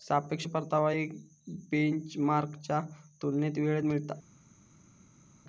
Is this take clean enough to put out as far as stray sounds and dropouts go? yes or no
yes